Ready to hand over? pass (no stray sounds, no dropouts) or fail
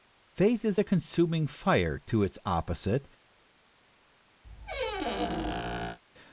fail